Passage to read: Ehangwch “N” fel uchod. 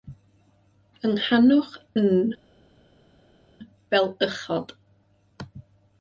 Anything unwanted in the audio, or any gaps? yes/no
no